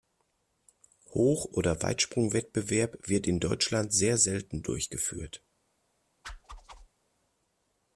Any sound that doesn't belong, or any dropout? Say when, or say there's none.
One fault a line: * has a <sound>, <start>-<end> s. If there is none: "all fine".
* has a whoosh, 6.2-6.9 s